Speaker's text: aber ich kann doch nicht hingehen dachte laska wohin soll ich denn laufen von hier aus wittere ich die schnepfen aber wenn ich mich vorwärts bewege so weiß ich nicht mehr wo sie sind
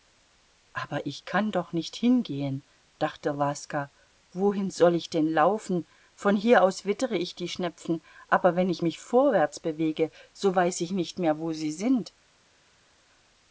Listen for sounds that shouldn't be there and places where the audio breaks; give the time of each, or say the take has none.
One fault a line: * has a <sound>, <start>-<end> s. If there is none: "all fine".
all fine